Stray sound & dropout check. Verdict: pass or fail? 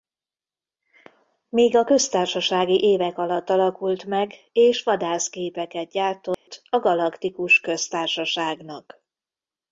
fail